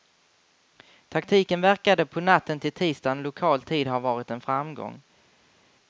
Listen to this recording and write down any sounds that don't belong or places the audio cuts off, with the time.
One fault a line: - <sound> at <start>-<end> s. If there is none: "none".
none